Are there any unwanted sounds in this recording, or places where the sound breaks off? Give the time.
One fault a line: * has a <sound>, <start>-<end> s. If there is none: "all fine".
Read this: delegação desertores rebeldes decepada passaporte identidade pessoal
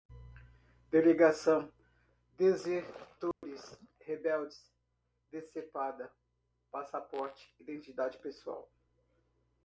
* has a dropout, 3.3-3.4 s